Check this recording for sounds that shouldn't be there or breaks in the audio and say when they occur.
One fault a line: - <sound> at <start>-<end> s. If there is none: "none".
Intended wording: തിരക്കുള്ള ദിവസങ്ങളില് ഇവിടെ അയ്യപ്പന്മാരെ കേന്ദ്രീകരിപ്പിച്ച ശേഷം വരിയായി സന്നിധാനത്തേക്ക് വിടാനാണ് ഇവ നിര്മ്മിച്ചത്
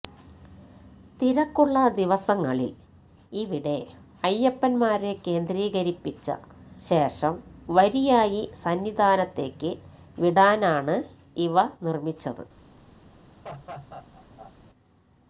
- laugh at 13.4-14.5 s